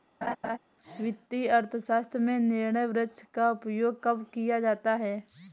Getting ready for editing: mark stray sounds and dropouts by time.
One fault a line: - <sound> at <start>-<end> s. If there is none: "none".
- laugh at 0.2-0.6 s